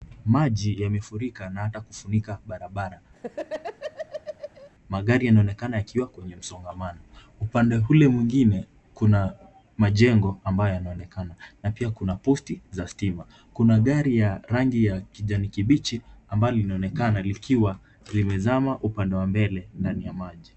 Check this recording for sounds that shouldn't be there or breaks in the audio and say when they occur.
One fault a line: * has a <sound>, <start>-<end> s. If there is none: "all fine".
* has a laugh, 3.2-4.7 s